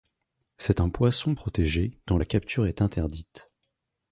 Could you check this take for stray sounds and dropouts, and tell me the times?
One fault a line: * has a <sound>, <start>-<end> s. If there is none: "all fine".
all fine